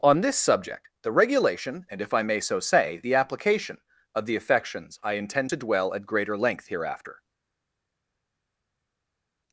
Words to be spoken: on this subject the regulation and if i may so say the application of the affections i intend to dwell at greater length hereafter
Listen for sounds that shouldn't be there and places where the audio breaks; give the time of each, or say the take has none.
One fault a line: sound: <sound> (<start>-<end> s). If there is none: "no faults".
no faults